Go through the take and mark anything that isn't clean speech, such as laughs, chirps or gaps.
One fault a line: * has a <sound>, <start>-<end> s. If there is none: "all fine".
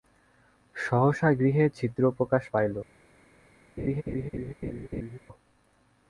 * has a laugh, 3.8-5.2 s